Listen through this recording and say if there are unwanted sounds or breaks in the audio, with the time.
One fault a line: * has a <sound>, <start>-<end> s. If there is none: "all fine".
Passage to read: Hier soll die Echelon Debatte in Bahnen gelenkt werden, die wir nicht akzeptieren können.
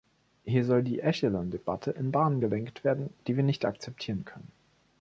all fine